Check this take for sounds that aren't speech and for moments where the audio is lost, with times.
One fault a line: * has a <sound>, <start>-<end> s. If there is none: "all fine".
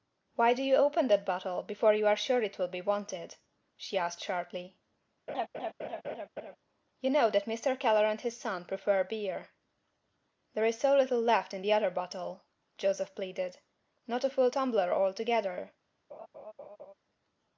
* has a laugh, 5.3-6.6 s
* has a laugh, 16.1-16.9 s